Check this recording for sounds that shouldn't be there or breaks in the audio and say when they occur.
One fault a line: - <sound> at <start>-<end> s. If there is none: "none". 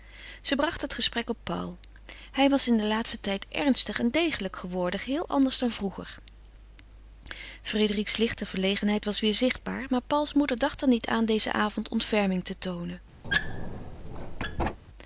- squeak at 13.2-14.8 s